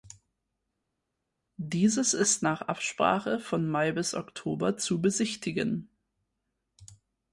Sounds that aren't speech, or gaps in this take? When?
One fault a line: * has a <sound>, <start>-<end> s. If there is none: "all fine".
all fine